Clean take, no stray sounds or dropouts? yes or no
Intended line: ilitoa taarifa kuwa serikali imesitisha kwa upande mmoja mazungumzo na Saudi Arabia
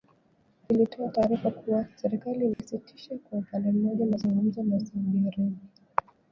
no